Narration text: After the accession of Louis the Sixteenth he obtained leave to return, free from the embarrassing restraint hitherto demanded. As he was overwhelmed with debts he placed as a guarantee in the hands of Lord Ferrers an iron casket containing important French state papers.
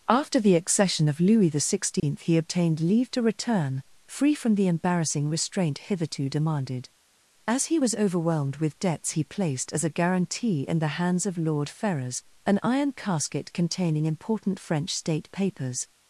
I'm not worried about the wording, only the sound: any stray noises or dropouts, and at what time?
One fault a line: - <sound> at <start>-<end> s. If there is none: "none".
- dropout at 2.0-2.0 s